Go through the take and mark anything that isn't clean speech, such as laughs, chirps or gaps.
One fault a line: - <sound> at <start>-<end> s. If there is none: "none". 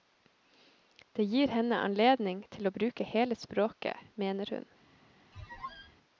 - squeak at 5.3-6.0 s